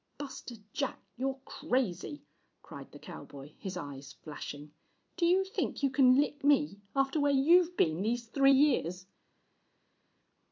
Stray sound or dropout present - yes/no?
no